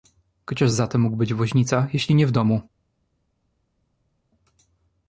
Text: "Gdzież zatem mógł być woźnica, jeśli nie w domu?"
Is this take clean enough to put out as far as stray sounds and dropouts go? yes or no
yes